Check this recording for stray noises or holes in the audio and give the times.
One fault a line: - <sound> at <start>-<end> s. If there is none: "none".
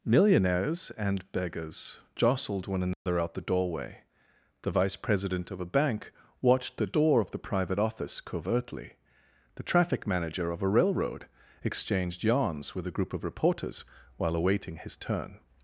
- dropout at 2.9-3.1 s